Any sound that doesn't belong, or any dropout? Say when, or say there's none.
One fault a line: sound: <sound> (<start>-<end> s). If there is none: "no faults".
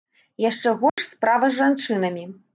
sound: dropout (0.9-1.0 s)